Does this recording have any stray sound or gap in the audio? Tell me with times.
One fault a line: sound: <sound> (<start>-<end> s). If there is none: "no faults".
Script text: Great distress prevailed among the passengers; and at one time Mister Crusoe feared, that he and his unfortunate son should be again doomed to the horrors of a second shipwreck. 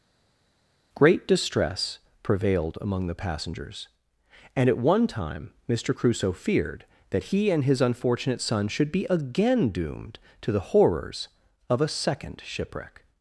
no faults